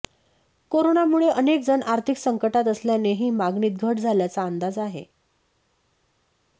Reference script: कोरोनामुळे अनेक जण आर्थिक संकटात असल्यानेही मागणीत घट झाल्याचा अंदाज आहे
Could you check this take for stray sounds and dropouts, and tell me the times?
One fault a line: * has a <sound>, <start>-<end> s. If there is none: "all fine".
all fine